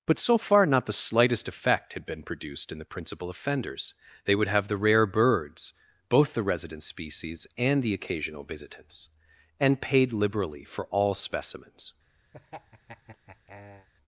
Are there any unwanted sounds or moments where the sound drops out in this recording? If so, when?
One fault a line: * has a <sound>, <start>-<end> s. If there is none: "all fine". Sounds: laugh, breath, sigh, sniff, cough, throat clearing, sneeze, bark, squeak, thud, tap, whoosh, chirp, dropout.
* has a laugh, 12.3-13.9 s